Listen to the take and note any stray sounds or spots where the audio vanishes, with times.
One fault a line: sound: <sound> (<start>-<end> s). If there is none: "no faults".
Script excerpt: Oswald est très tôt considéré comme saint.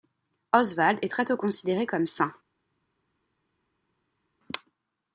no faults